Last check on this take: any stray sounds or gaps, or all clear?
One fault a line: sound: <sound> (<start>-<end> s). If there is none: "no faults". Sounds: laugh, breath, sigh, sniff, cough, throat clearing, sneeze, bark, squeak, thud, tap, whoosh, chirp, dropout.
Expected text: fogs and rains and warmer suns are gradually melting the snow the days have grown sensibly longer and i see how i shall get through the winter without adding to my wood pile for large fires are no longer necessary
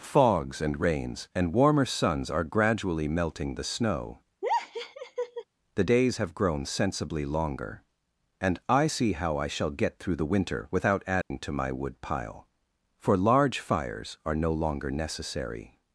sound: laugh (4.4-5.4 s)
sound: dropout (11.2-11.3 s)